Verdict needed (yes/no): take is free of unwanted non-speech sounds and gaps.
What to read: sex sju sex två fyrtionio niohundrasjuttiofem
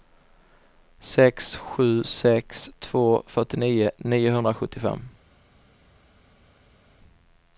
yes